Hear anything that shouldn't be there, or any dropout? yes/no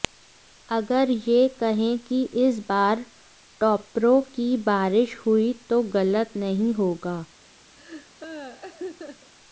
yes